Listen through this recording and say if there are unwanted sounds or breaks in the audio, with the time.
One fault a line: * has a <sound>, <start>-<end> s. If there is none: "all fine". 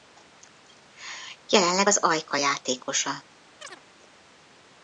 * has a chirp, 3.6-3.8 s